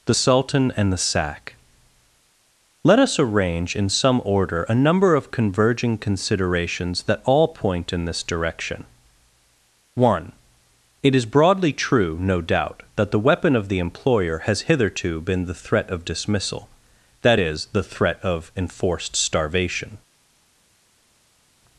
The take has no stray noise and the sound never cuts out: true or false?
true